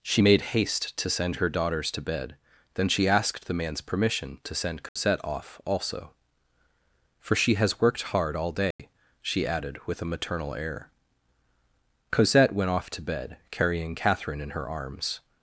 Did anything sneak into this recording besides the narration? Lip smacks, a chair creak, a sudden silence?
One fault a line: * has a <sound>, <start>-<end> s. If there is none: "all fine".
* has a dropout, 4.9-5.0 s
* has a dropout, 8.7-8.8 s